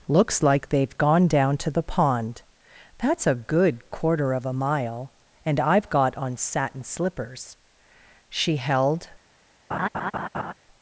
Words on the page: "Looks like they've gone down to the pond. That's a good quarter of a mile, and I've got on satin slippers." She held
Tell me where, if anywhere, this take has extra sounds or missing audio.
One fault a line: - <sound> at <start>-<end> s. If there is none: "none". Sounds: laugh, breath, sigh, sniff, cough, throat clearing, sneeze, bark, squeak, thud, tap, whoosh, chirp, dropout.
- laugh at 9.7-10.5 s